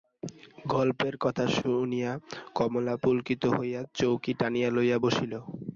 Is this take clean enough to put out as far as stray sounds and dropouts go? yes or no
no